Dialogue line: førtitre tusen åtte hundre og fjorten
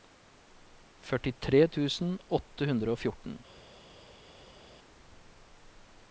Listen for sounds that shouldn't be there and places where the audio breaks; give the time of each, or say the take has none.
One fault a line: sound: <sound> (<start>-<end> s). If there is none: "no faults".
no faults